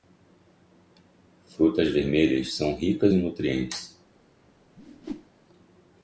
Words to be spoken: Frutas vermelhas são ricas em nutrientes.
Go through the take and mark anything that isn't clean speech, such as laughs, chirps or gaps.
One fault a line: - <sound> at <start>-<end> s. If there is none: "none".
- whoosh at 4.8-5.3 s